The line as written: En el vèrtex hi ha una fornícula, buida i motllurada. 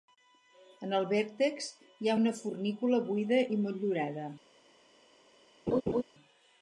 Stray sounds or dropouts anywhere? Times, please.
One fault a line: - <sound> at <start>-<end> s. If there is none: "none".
- laugh at 5.7-6.0 s